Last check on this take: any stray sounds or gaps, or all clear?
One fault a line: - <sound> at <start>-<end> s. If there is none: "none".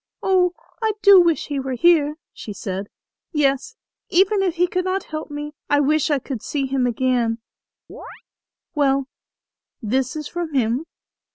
- chirp at 7.9-8.2 s